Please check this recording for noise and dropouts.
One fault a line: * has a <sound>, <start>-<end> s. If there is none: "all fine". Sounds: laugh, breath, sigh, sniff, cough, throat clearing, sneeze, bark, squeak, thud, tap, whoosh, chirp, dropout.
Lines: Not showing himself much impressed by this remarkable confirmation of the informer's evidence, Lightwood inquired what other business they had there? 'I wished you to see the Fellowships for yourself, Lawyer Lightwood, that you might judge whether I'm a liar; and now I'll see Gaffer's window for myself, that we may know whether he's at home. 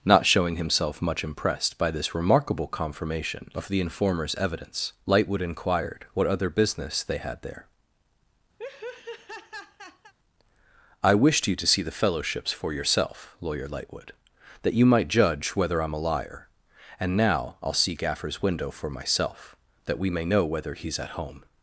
* has a laugh, 8.6-10.1 s